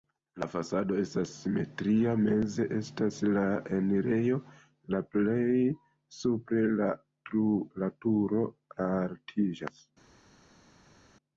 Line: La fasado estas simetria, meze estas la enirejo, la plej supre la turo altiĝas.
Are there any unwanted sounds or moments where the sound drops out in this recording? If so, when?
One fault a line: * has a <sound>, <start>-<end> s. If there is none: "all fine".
all fine